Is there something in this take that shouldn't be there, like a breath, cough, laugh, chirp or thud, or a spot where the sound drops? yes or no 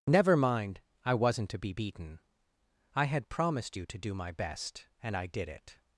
no